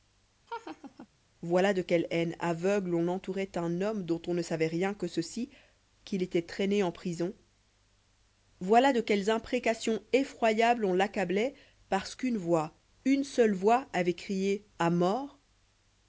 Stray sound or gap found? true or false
true